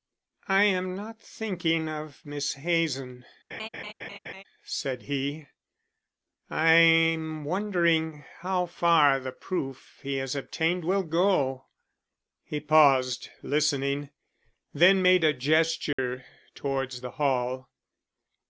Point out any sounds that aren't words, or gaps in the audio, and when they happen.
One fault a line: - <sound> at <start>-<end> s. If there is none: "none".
- laugh at 3.5-4.4 s
- dropout at 15.9-16.0 s